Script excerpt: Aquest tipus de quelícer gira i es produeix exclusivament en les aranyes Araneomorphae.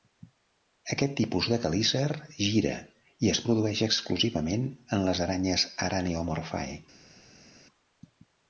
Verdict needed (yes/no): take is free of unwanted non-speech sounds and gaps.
yes